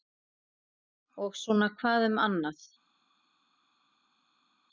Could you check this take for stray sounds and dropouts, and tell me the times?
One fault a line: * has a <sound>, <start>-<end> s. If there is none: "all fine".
all fine